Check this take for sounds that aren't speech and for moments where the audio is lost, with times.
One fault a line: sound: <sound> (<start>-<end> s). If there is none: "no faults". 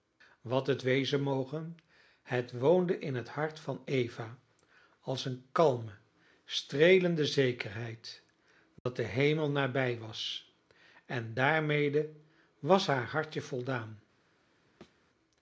sound: dropout (8.8-8.9 s)
sound: thud (14.8-15.0 s)